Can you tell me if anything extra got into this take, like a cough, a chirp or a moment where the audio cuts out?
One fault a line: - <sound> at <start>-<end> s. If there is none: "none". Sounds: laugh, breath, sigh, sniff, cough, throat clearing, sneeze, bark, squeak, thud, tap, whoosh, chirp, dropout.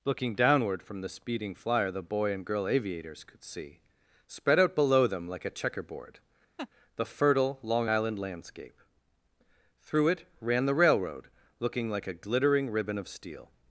- laugh at 6.6-6.7 s